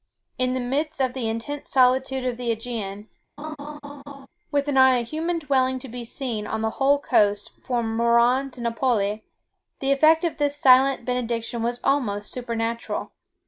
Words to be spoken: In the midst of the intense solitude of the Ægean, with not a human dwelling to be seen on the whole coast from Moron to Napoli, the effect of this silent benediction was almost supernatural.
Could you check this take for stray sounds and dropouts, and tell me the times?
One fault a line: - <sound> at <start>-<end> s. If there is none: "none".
- laugh at 3.4-4.3 s